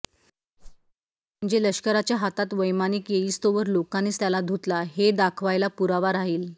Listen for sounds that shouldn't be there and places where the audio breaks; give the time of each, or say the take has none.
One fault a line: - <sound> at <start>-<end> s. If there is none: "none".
- whoosh at 0.6-0.9 s